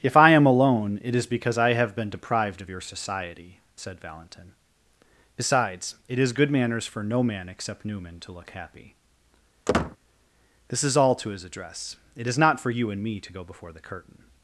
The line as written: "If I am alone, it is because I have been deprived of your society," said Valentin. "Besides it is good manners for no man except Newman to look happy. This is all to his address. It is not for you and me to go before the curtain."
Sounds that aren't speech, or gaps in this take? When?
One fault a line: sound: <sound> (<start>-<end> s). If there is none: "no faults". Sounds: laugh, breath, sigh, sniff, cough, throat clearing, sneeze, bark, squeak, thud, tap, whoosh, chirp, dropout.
sound: squeak (9.7-10.0 s)